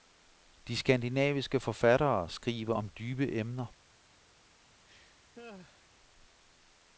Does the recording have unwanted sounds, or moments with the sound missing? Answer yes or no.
yes